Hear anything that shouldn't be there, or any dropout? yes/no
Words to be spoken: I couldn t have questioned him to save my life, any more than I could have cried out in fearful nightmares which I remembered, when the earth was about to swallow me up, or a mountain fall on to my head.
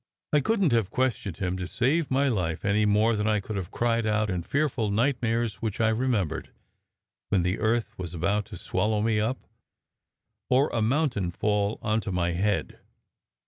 no